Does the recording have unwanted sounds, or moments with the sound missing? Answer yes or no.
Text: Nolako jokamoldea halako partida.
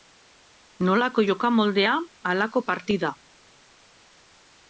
no